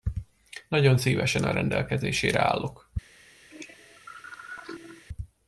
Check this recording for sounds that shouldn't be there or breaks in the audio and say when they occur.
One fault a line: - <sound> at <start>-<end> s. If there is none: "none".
- cough at 3.5-5.0 s